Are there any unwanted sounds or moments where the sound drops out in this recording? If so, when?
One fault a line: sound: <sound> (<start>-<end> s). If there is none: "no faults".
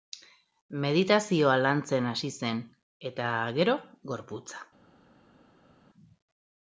no faults